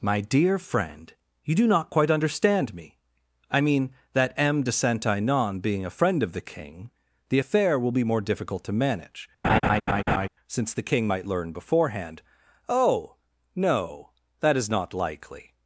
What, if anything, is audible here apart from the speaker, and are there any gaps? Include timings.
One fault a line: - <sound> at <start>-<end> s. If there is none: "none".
- laugh at 9.4-10.3 s